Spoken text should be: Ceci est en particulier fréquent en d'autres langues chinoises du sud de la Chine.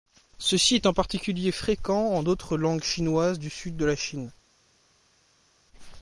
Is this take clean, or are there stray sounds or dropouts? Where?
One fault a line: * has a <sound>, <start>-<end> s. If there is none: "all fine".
all fine